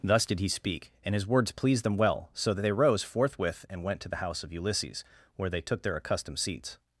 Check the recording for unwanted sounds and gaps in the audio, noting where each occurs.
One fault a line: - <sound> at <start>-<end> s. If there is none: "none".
none